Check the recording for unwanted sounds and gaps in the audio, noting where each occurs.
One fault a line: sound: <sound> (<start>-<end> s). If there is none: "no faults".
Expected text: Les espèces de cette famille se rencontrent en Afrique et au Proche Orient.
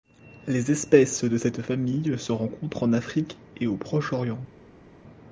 no faults